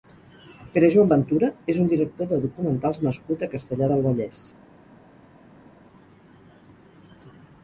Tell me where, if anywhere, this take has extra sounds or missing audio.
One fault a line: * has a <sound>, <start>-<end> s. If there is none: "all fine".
all fine